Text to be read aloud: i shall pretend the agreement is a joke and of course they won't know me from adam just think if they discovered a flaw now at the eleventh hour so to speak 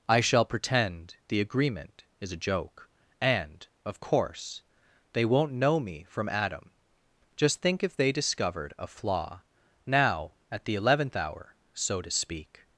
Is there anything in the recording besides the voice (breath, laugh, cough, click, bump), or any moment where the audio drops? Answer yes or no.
no